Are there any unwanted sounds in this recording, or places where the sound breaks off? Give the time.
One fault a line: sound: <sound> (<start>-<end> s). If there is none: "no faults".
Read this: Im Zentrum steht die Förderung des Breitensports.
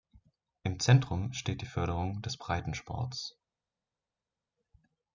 no faults